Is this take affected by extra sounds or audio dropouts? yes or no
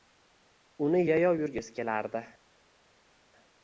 no